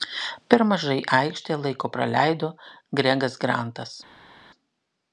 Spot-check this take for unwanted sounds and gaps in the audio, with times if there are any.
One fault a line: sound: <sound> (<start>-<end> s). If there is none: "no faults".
no faults